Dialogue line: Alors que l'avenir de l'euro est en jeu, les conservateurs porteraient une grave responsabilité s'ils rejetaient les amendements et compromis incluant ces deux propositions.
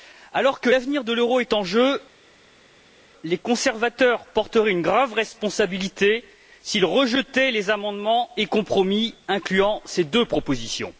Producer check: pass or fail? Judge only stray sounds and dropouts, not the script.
pass